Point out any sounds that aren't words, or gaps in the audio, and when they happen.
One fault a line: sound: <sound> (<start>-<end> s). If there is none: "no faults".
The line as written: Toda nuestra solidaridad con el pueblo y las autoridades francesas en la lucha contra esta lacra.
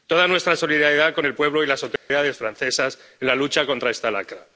sound: dropout (2.0-2.1 s)